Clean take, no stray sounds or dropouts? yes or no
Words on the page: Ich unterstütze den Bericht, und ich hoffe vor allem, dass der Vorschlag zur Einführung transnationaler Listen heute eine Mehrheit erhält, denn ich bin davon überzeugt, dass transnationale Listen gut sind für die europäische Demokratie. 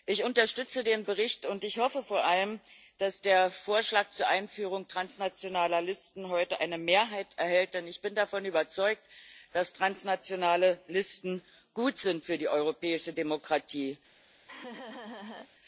no